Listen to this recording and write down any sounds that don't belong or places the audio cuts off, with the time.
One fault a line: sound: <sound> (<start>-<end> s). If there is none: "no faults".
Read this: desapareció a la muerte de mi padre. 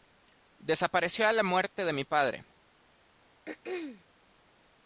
sound: throat clearing (3.5-4.0 s)